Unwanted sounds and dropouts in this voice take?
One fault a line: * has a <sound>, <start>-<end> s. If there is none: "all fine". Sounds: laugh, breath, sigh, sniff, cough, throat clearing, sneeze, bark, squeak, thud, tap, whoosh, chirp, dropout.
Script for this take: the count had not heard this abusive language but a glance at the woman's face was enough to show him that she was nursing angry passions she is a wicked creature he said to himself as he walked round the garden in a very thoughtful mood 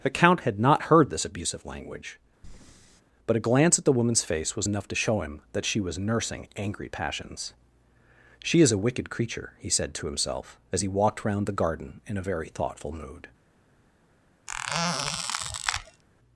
* has a breath, 2.4-3.0 s
* has a squeak, 14.5-16.0 s